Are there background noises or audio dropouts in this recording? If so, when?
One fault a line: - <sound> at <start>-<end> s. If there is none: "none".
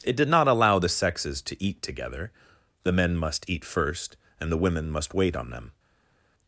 none